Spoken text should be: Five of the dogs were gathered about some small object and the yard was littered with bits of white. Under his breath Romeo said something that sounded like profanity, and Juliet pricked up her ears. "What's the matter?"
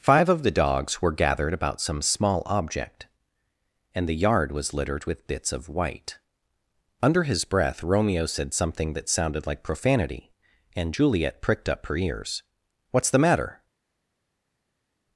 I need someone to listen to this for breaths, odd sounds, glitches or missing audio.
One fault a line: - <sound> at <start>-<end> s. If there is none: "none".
none